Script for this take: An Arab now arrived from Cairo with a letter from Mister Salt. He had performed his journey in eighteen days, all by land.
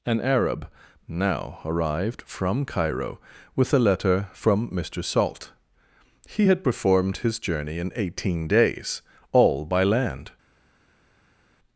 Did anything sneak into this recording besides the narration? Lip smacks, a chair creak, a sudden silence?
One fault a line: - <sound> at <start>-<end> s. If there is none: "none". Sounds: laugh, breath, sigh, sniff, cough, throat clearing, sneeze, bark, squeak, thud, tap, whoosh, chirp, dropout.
none